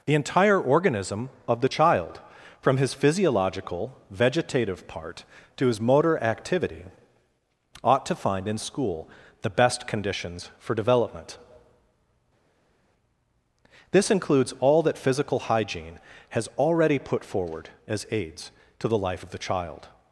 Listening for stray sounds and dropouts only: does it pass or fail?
pass